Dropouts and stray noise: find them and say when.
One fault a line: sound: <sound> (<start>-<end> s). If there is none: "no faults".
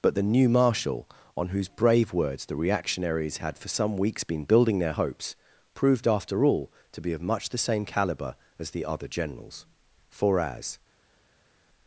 no faults